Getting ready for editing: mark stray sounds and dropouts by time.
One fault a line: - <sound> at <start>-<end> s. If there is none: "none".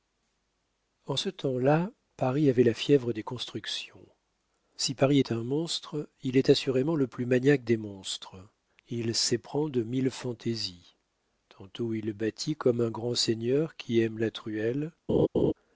- laugh at 15.1-15.5 s